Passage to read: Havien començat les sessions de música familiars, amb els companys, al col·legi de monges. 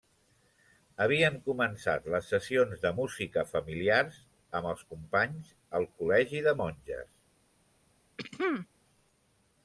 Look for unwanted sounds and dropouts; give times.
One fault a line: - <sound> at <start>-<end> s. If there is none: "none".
- throat clearing at 8.2-8.7 s